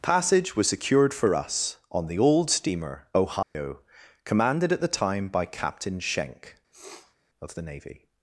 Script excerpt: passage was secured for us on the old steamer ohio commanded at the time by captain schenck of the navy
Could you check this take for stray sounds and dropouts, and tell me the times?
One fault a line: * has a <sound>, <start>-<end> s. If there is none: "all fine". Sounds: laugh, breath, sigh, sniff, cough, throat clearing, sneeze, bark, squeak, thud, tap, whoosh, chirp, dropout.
* has a dropout, 3.4-3.5 s
* has a sniff, 6.7-7.2 s